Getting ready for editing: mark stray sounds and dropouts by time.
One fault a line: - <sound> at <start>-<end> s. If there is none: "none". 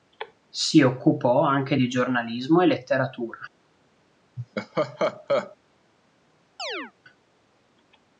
- laugh at 4.4-5.6 s
- chirp at 6.6-6.9 s